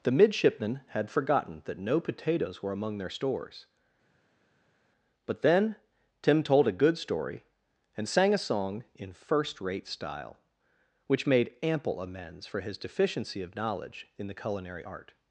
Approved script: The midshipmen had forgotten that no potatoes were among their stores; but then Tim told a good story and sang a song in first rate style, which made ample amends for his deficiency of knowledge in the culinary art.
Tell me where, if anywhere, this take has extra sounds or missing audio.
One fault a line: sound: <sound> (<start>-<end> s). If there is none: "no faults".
no faults